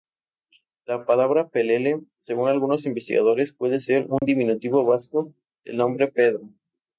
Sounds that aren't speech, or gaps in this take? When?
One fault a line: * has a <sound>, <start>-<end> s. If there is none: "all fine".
* has a dropout, 4.2-4.2 s